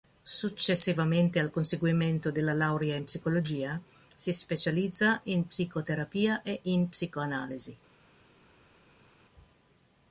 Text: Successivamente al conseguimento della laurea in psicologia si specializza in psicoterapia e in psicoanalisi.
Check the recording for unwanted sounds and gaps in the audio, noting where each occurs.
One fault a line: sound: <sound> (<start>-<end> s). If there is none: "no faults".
no faults